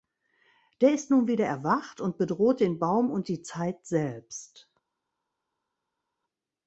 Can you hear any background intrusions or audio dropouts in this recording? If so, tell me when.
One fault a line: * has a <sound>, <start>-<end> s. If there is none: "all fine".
all fine